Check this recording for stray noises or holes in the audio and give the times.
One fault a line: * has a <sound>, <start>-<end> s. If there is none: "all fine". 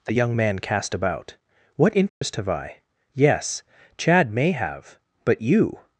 * has a dropout, 2.1-2.2 s